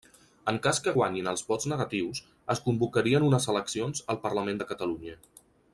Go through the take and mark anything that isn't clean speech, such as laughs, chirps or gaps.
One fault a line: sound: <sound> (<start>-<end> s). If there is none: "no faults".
no faults